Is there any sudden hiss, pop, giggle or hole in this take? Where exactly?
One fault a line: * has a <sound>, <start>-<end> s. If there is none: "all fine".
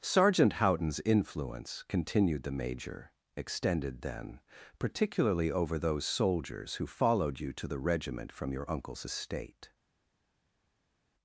all fine